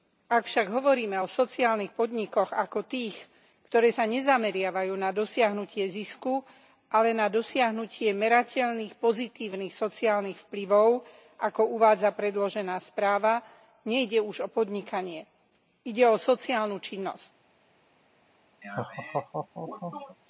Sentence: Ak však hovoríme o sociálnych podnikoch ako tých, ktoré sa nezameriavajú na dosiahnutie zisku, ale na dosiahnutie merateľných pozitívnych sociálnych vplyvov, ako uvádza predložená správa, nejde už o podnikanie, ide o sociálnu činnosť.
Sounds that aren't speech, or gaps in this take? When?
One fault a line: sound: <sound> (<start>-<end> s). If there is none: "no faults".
sound: laugh (18.6-20.2 s)